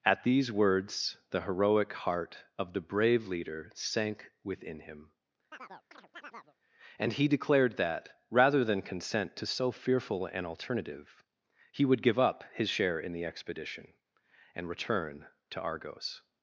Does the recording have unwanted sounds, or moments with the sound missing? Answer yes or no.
yes